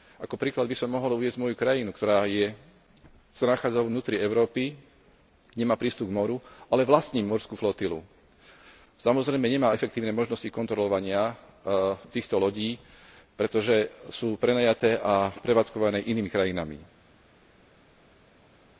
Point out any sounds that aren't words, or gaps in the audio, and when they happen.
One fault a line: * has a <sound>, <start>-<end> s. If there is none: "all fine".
all fine